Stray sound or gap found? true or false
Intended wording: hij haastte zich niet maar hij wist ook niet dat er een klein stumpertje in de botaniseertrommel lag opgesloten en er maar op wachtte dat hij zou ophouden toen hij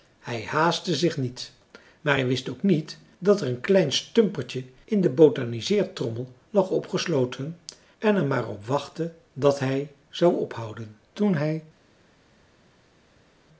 false